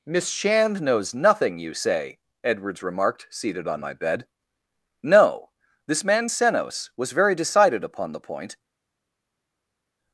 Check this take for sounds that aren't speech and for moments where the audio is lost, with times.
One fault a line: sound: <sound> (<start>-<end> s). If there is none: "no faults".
no faults